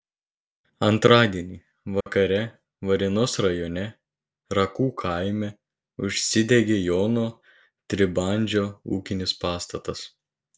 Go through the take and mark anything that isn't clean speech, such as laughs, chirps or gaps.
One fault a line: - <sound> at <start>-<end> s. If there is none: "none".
- dropout at 2.0-2.1 s